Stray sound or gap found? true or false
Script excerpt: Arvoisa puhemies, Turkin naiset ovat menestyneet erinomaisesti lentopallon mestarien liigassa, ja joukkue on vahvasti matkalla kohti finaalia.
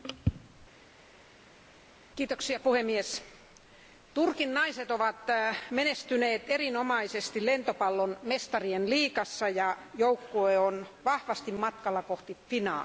false